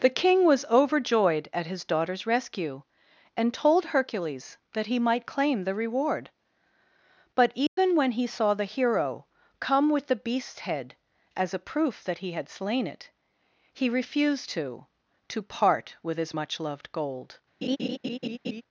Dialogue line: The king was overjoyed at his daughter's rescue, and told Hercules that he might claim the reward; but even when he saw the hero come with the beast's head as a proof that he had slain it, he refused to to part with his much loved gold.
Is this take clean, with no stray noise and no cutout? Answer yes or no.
no